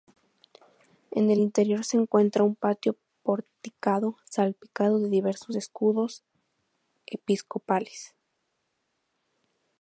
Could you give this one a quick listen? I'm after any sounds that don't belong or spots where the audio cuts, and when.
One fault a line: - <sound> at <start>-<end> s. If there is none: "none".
none